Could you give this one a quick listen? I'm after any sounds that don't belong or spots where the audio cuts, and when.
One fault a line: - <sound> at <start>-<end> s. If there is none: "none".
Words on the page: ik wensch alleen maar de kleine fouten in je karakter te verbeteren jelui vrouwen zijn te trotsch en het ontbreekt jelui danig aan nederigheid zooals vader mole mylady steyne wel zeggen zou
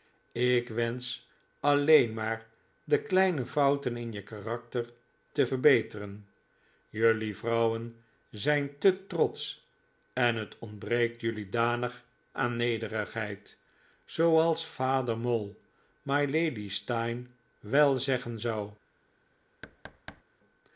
- thud at 19.6-20.2 s